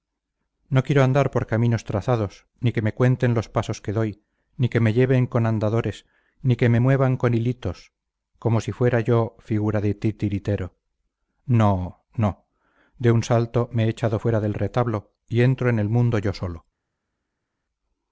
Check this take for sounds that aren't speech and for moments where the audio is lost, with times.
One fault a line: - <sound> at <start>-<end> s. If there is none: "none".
none